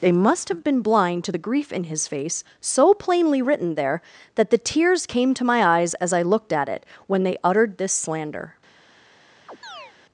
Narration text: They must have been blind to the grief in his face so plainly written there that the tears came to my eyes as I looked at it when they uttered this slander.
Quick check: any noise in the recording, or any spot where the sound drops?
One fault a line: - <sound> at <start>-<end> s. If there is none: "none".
- chirp at 9.5-9.9 s